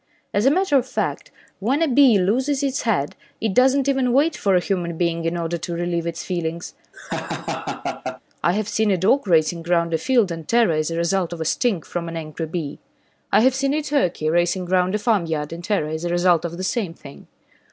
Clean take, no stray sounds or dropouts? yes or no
no